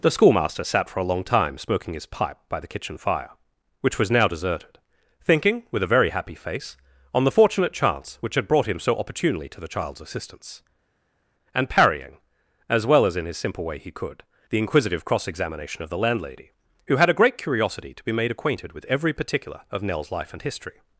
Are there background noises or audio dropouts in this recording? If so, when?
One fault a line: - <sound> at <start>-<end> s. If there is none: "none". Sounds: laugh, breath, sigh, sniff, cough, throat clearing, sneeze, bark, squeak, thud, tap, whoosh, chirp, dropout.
none